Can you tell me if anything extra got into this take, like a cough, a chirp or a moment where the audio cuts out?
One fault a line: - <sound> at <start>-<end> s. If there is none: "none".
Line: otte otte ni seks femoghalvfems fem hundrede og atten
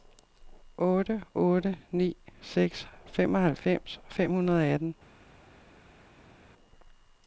none